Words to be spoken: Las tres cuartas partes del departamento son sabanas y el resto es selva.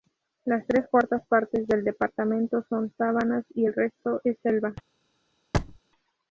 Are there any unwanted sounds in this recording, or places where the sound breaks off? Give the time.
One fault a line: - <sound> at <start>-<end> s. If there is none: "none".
- thud at 5.5-5.8 s